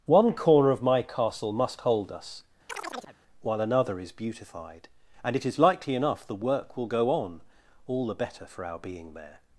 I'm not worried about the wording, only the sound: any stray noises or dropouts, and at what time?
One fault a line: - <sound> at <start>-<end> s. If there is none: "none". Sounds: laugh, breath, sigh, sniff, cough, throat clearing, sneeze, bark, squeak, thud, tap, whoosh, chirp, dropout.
- chirp at 2.7-3.2 s